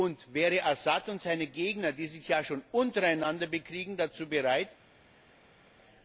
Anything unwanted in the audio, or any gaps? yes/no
no